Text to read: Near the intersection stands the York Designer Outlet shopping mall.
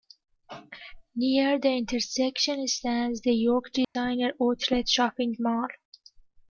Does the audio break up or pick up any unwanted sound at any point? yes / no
yes